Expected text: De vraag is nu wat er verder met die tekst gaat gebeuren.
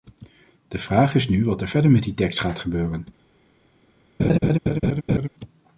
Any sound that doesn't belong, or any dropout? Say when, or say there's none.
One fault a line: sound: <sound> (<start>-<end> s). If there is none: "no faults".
sound: laugh (4.2-5.3 s)